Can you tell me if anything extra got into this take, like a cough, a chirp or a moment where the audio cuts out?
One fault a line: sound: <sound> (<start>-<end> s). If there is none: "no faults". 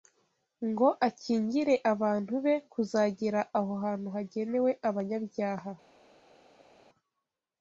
no faults